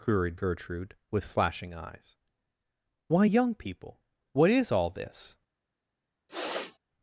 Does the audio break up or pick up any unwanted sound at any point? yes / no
yes